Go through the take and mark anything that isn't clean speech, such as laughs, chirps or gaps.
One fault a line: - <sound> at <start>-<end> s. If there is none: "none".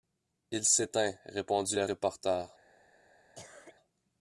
- cough at 3.3-3.8 s